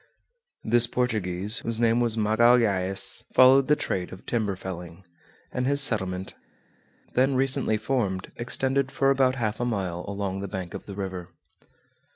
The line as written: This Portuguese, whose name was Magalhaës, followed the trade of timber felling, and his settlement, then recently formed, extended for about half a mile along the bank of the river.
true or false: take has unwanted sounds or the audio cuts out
false